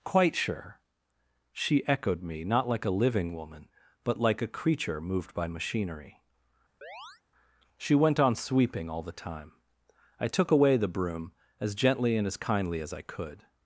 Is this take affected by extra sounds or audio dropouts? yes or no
yes